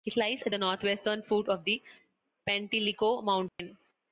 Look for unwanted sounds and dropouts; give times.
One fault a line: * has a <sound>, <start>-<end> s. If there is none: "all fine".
* has a dropout, 3.5-3.6 s